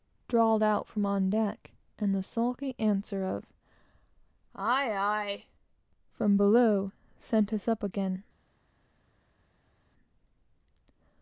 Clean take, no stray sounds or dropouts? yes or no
yes